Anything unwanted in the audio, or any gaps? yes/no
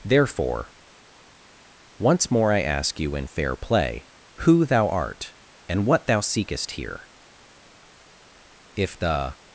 no